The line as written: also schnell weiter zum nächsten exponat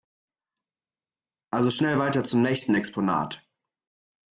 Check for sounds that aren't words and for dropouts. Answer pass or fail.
pass